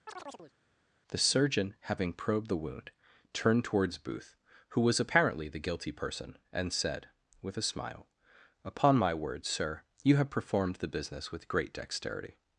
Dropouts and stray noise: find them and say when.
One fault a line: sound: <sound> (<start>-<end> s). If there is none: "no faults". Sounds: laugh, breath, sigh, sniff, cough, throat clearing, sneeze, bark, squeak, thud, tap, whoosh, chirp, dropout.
sound: chirp (0.1-0.5 s)